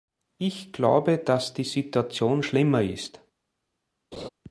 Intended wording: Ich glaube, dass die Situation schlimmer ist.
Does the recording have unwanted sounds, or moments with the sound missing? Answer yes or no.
yes